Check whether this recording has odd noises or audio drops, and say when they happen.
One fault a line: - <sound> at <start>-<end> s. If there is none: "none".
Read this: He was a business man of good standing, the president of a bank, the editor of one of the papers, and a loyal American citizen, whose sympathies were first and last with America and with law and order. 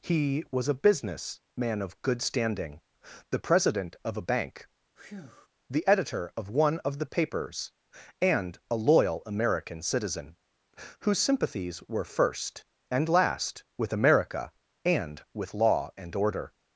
- breath at 5.0-5.5 s